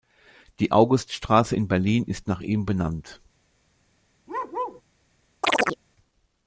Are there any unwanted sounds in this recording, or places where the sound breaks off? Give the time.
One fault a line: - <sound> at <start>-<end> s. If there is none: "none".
- bark at 4.3-4.8 s
- chirp at 5.4-5.8 s